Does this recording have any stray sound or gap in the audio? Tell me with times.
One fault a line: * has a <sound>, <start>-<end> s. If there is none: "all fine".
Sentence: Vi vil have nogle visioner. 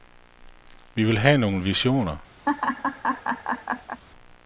* has a laugh, 2.5-4.0 s